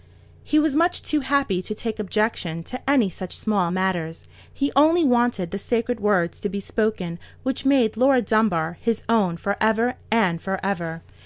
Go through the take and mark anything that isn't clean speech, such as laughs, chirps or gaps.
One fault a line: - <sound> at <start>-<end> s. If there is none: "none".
none